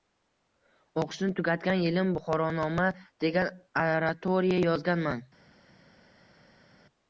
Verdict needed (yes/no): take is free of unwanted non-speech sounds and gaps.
yes